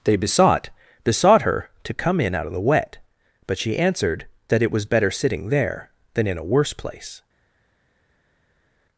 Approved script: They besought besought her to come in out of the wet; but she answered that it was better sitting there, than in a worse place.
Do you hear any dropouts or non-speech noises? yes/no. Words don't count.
no